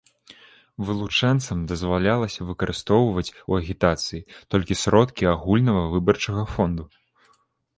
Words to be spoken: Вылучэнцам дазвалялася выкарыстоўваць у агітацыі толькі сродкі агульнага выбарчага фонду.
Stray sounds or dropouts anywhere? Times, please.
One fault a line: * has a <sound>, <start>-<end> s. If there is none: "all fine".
all fine